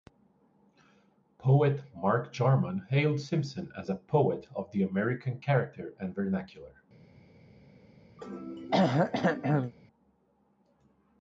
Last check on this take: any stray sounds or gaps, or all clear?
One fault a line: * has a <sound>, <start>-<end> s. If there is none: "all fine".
* has a throat clearing, 8.2-9.7 s